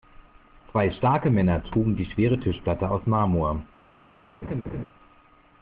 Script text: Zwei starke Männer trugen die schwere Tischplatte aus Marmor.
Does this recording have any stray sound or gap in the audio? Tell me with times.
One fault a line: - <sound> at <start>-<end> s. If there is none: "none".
- laugh at 4.4-4.9 s